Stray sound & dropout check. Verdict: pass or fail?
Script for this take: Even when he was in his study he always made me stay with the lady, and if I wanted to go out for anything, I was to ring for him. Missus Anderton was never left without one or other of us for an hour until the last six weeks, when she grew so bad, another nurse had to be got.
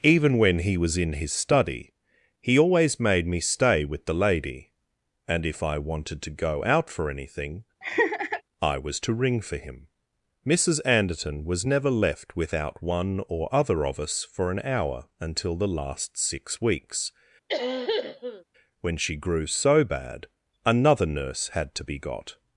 fail